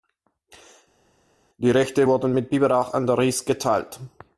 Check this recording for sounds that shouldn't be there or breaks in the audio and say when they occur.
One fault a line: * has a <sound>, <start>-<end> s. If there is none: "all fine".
all fine